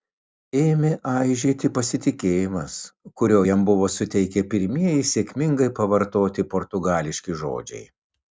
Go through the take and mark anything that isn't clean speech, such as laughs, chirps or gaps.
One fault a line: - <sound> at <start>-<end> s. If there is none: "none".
none